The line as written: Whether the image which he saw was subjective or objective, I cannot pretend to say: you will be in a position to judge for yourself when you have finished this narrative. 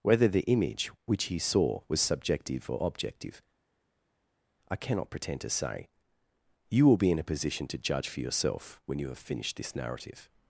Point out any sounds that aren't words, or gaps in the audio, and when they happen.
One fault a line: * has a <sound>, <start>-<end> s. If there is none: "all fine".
all fine